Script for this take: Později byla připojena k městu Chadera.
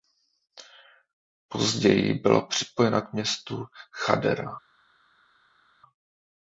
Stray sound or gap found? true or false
false